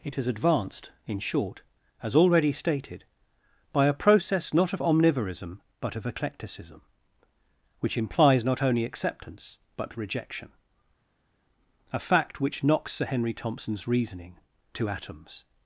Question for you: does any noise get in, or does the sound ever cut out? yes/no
no